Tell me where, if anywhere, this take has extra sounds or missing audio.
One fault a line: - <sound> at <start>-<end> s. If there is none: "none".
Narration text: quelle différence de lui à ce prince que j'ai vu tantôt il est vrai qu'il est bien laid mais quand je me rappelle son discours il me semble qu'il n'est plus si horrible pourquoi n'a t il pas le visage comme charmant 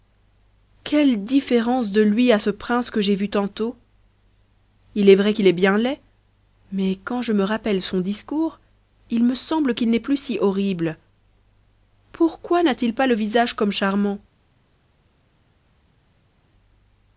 none